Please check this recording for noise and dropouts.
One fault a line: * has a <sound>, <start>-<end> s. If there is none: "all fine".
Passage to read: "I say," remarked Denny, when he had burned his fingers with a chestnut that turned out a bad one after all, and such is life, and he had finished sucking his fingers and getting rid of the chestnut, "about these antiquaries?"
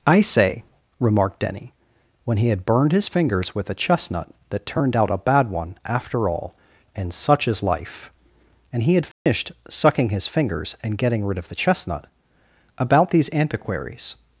* has a dropout, 9.1-9.3 s